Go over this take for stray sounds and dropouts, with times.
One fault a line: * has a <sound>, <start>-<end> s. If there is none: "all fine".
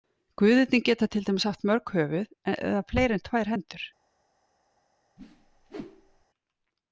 * has a whoosh, 5.2-6.3 s